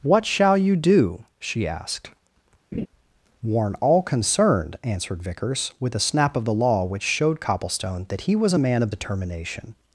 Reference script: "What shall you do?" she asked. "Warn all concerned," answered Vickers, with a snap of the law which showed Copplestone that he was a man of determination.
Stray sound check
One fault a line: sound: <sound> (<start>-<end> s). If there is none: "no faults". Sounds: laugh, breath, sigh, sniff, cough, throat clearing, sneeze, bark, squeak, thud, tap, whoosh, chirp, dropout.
sound: laugh (2.7-2.9 s)